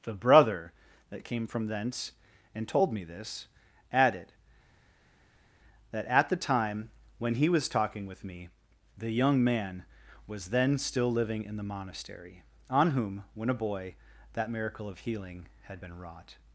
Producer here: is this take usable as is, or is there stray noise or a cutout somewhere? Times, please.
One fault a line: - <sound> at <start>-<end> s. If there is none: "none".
none